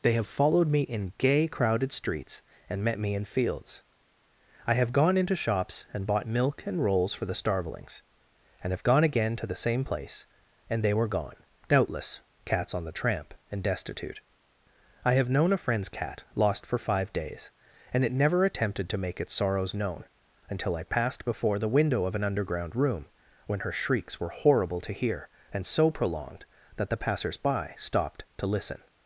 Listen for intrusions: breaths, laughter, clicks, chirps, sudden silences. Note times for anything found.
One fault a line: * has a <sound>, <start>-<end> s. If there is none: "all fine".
all fine